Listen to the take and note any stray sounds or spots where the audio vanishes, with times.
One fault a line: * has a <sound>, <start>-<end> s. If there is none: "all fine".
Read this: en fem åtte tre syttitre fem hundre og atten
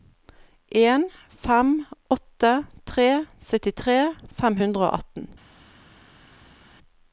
all fine